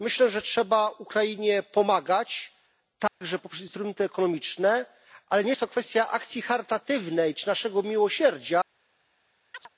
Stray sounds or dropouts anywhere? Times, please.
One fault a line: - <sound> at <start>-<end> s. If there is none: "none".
- dropout at 3.1-3.2 s
- chirp at 9.5-9.7 s